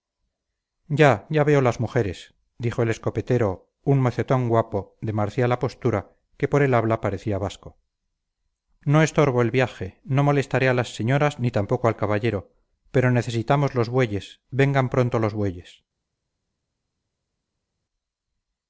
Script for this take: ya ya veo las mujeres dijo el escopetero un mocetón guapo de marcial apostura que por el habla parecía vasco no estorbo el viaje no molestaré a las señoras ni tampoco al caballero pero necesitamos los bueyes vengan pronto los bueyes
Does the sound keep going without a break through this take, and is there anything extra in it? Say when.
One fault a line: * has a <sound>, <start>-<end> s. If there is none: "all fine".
all fine